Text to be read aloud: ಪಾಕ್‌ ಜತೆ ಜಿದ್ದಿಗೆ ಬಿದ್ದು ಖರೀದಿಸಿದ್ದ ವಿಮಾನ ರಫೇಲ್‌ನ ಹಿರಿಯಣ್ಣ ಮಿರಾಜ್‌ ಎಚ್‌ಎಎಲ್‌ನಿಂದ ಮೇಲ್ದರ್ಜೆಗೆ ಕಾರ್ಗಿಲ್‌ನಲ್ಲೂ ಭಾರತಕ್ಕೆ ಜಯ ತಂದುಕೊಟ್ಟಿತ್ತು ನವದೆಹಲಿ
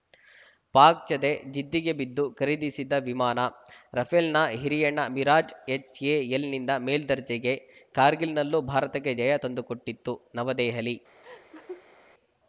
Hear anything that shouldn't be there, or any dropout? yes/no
yes